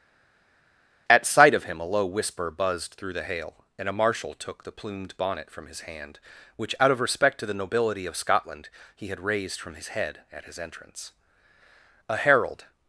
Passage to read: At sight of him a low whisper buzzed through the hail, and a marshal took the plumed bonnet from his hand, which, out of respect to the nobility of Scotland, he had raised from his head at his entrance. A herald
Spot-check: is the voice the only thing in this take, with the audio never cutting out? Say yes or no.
yes